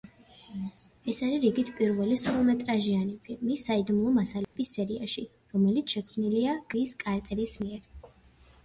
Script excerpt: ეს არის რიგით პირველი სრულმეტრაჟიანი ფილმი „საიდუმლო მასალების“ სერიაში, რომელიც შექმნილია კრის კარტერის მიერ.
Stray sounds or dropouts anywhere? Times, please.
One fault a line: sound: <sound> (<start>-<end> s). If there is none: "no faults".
sound: dropout (4.4-4.6 s)